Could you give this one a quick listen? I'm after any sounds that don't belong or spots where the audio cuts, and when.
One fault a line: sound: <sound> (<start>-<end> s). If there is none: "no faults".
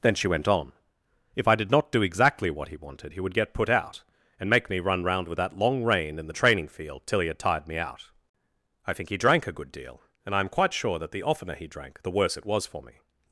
no faults